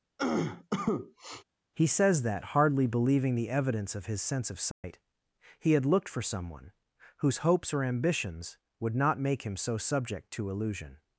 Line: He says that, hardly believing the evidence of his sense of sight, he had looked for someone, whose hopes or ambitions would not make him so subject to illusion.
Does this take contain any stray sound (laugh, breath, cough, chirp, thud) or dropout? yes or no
yes